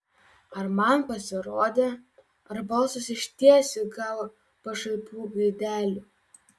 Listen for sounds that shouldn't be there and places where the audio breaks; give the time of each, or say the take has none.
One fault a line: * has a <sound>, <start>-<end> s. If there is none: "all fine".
all fine